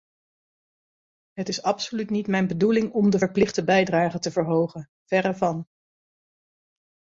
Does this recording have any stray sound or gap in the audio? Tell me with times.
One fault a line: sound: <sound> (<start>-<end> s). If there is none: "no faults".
no faults